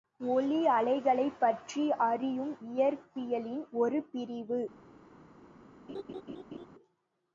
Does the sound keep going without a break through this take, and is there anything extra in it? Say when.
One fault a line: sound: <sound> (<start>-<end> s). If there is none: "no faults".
sound: laugh (5.9-6.7 s)